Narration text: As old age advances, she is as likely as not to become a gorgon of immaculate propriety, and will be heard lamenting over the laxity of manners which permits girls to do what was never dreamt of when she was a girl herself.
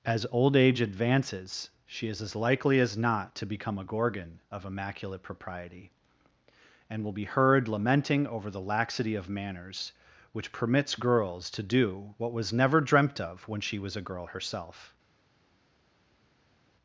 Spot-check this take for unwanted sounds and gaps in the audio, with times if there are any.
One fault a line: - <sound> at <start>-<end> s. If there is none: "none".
none